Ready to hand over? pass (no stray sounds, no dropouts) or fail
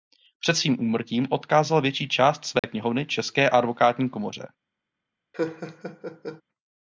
fail